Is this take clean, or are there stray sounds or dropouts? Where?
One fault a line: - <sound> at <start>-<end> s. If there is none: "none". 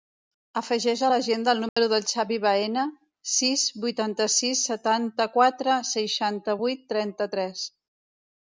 - dropout at 1.7-1.8 s